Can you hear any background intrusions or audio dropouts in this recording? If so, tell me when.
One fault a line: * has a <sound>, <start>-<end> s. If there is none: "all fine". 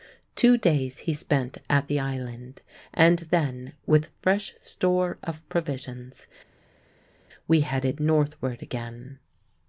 all fine